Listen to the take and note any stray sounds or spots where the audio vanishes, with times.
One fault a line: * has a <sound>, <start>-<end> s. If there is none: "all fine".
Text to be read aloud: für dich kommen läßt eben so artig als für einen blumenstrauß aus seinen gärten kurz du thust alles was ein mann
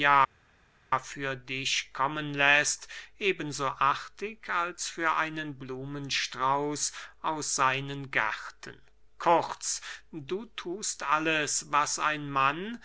all fine